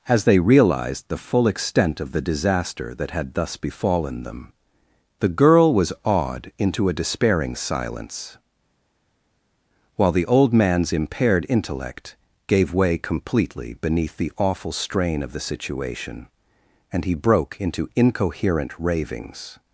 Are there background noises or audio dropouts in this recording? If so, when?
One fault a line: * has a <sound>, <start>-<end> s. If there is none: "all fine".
all fine